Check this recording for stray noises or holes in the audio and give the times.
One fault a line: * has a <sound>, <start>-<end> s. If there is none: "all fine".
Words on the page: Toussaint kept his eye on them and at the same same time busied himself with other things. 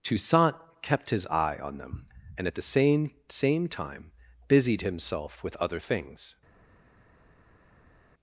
all fine